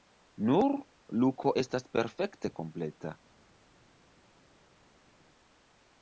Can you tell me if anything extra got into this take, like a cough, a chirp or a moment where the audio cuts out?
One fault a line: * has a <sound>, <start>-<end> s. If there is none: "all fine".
all fine